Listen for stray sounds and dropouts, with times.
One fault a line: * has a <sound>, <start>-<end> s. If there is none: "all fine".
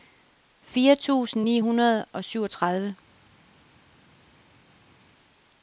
all fine